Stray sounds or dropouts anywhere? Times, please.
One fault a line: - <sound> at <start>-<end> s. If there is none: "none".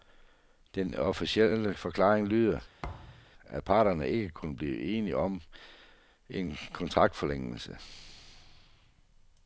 - thud at 2.8-3.3 s